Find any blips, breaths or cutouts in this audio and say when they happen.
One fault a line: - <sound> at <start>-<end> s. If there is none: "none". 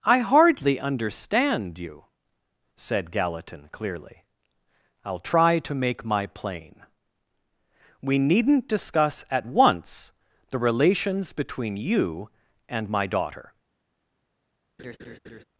- laugh at 14.8-15.4 s